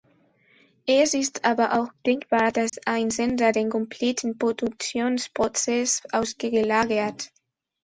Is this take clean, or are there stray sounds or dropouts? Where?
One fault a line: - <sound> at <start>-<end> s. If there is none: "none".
- dropout at 2.7-2.7 s